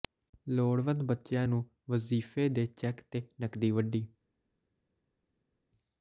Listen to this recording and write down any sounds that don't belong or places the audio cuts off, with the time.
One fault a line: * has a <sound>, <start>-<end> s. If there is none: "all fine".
all fine